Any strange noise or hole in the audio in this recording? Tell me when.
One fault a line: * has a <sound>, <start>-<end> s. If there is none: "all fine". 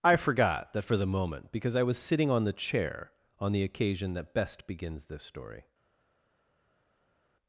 all fine